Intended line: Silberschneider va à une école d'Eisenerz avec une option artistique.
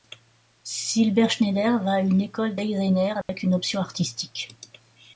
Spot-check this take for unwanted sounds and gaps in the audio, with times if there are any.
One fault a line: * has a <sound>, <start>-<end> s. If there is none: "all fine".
* has a dropout, 3.2-3.3 s